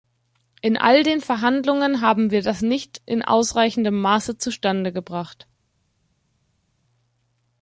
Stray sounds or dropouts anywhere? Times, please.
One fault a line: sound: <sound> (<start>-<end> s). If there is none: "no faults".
no faults